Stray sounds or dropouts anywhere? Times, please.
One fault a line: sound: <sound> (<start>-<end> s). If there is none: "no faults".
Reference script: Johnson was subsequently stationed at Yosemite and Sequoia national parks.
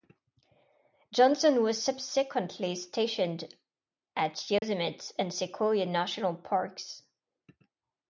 sound: dropout (4.6-4.6 s)